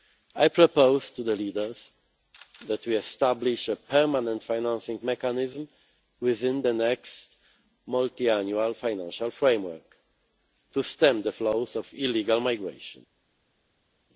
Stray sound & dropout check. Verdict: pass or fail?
pass